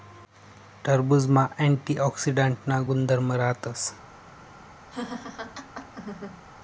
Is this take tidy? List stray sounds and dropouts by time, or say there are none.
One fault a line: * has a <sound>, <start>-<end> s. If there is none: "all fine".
* has a laugh, 4.9-6.4 s